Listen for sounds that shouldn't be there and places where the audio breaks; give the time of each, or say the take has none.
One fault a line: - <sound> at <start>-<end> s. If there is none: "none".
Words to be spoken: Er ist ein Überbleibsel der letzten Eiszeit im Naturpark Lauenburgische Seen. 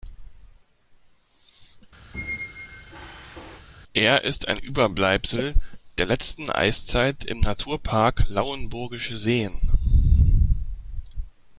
- squeak at 2.1-3.7 s